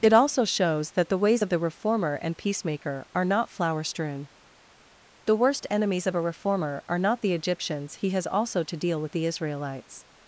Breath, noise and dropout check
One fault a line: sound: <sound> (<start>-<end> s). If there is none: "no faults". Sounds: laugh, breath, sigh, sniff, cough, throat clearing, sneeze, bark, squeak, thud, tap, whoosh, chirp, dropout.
no faults